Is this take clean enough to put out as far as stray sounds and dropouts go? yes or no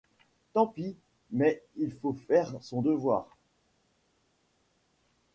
yes